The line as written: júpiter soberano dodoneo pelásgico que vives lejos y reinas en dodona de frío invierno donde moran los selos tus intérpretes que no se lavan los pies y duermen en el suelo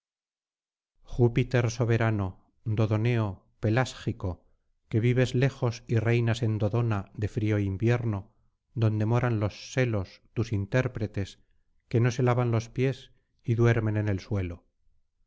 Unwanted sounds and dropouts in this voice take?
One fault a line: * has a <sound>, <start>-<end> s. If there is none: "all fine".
all fine